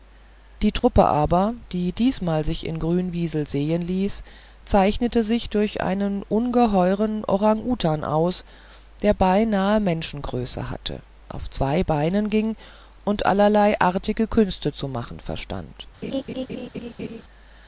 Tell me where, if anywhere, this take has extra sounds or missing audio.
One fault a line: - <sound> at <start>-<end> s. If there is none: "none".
- dropout at 0.8-0.8 s
- laugh at 16.0-17.2 s